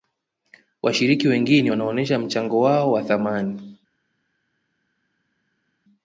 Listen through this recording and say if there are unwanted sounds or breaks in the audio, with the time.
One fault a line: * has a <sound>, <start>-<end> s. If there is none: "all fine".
all fine